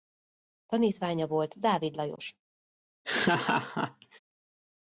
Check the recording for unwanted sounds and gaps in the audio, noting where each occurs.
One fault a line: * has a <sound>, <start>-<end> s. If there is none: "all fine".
* has a laugh, 3.0-4.2 s